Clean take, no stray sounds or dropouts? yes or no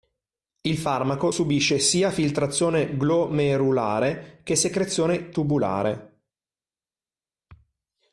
yes